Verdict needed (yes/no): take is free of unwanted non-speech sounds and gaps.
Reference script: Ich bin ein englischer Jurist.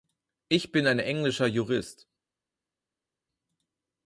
yes